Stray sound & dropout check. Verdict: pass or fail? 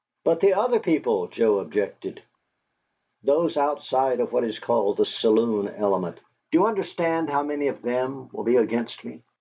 pass